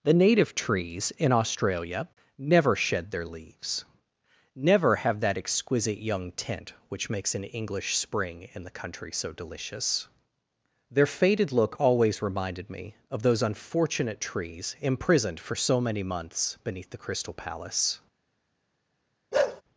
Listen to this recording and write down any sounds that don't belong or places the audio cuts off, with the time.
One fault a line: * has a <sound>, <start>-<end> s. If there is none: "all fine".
* has a bark, 19.3-19.6 s